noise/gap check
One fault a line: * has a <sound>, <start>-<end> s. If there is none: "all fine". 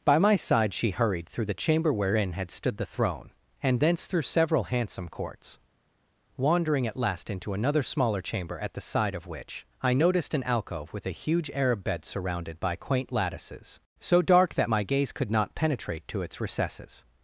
all fine